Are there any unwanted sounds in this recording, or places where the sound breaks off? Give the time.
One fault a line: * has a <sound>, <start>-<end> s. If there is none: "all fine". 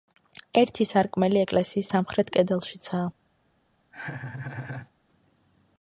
* has a laugh, 3.9-4.9 s